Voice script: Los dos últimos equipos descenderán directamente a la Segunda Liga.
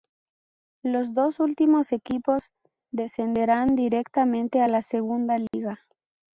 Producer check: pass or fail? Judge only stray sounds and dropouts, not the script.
fail